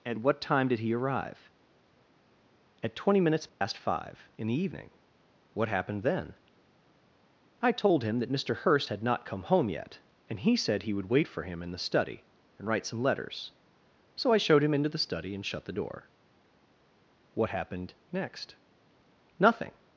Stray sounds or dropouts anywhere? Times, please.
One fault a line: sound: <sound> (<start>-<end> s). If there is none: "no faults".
sound: dropout (3.5-3.6 s)